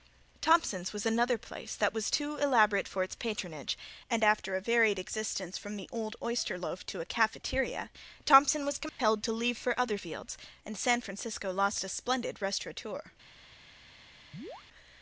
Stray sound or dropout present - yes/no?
yes